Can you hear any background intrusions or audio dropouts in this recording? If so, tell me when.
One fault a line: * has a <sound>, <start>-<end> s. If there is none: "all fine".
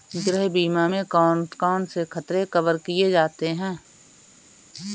all fine